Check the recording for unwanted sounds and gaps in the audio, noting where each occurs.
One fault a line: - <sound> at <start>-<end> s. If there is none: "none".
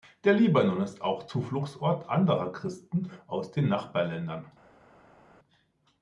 none